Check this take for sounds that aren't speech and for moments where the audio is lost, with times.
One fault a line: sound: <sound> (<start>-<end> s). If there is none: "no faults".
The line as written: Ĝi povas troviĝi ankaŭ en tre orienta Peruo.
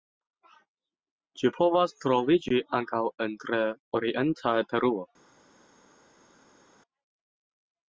no faults